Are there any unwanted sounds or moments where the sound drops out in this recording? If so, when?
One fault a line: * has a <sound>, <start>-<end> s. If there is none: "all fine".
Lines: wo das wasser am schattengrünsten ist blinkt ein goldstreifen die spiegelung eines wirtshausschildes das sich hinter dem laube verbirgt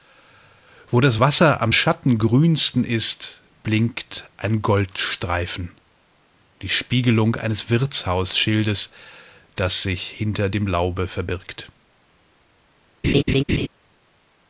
* has a laugh, 13.0-13.7 s